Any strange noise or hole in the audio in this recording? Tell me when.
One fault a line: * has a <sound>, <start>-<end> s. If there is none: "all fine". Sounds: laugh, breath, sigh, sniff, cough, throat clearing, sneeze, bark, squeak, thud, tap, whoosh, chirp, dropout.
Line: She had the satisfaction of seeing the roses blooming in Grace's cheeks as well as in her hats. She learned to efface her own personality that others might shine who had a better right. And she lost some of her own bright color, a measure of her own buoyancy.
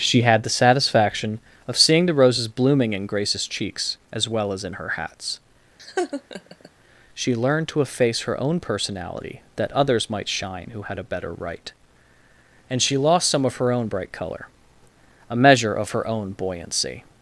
* has a laugh, 5.8-6.7 s